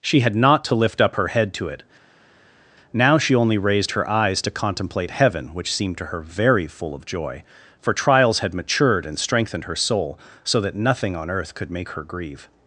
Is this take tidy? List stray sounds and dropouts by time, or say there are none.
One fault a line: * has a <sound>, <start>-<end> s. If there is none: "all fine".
all fine